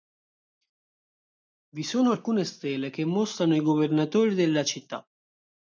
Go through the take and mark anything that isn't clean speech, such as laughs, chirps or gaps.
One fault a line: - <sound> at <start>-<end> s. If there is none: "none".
none